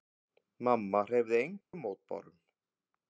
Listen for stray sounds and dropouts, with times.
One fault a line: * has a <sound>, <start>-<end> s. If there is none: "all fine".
* has a dropout, 1.6-1.7 s